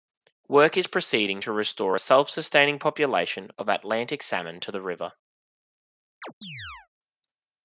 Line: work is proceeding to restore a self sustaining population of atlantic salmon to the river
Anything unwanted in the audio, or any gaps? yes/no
yes